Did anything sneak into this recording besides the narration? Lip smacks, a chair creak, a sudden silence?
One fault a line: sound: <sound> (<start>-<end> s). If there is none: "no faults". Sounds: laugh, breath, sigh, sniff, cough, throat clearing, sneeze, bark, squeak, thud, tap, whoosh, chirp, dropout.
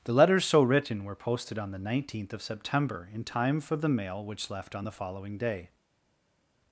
no faults